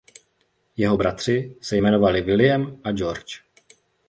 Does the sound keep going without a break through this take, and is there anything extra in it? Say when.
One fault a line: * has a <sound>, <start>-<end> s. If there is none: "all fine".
all fine